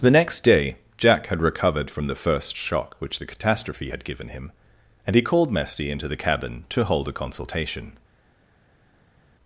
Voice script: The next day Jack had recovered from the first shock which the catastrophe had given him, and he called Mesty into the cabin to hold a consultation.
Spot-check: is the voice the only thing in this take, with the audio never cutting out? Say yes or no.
yes